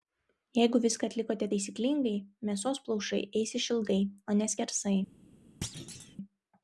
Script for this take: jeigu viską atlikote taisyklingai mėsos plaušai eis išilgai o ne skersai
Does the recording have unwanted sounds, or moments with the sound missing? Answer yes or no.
yes